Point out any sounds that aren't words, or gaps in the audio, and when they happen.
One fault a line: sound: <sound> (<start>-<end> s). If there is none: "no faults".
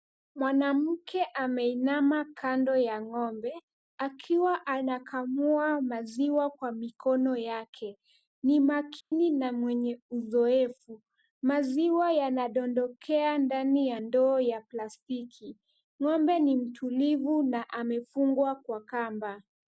sound: dropout (9.0-9.1 s)